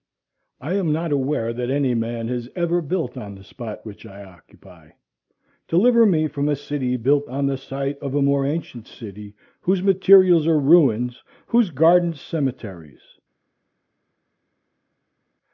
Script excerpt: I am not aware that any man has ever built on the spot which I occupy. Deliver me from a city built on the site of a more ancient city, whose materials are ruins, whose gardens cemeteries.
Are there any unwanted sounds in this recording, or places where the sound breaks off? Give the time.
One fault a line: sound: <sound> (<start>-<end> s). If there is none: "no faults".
no faults